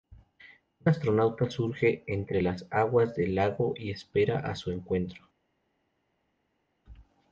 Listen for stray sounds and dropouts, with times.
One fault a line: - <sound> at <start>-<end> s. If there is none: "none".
none